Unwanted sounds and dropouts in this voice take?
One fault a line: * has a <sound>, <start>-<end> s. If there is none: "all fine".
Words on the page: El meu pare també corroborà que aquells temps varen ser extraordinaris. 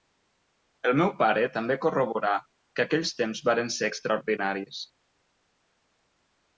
all fine